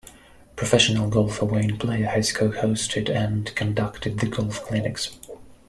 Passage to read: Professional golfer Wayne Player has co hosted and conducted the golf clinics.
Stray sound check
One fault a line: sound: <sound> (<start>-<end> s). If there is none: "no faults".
no faults